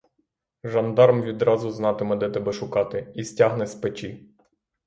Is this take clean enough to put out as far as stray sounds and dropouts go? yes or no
yes